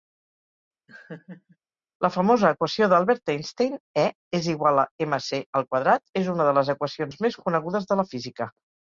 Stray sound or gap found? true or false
true